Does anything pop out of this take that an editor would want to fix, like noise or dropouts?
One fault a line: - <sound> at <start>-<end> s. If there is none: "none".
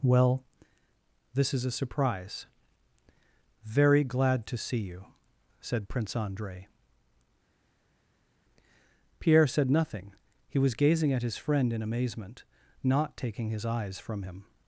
none